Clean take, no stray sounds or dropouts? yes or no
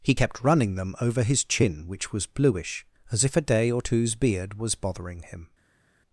yes